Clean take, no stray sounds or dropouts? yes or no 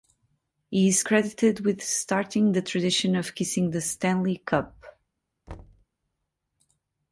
no